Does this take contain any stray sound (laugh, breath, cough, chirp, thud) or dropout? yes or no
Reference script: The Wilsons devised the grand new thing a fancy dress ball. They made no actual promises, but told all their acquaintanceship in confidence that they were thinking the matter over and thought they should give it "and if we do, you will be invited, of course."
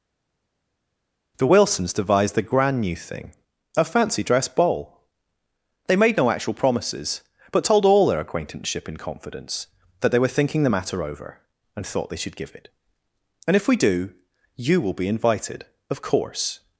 no